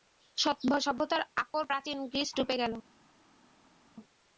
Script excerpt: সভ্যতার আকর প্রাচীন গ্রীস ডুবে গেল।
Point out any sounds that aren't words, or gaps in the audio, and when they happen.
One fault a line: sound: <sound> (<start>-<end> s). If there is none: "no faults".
no faults